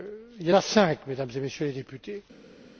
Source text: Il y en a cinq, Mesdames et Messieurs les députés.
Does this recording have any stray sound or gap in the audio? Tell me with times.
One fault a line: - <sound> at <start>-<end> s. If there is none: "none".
none